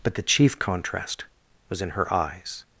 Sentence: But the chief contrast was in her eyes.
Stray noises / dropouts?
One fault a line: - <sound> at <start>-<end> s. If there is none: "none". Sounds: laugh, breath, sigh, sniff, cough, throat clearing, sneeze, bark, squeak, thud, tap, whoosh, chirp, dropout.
none